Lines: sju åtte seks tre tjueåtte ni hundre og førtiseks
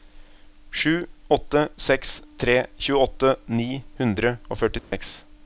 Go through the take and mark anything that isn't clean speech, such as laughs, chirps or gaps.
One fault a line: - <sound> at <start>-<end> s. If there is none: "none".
- dropout at 4.8-4.9 s